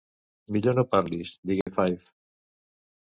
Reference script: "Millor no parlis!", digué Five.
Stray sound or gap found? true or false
true